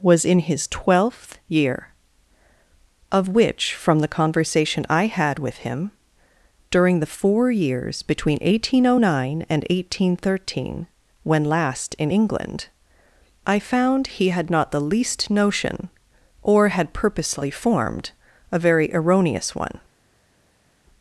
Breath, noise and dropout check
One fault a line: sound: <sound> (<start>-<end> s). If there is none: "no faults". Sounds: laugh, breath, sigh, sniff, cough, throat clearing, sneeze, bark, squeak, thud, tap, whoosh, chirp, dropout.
no faults